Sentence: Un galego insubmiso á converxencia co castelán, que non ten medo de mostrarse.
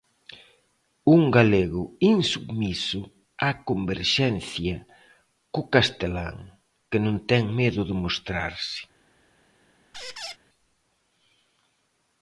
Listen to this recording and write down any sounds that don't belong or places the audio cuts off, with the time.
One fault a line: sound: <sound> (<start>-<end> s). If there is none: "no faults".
sound: squeak (9.9-10.4 s)